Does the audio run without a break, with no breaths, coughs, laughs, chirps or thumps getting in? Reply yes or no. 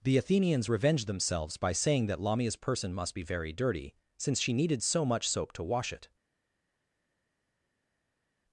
yes